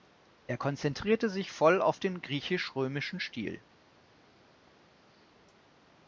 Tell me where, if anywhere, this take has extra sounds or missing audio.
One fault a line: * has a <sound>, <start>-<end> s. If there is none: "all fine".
all fine